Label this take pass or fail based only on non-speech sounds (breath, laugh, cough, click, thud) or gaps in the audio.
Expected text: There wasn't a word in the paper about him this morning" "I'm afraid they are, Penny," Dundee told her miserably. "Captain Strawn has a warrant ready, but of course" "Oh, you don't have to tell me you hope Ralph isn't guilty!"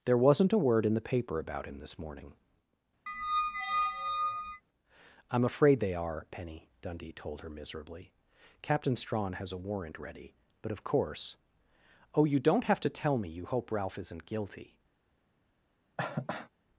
fail